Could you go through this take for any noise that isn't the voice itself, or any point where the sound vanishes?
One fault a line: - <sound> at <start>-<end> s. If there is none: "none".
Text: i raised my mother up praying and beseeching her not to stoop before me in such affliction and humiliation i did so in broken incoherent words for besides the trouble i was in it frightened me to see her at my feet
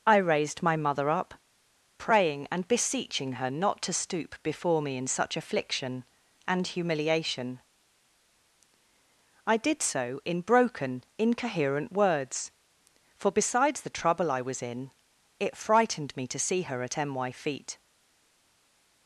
none